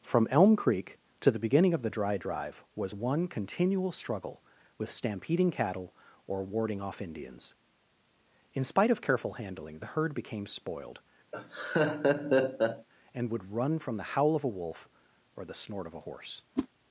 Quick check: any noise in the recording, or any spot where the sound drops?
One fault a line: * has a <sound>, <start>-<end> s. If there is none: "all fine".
* has a laugh, 11.3-12.9 s
* has a whoosh, 16.6-16.7 s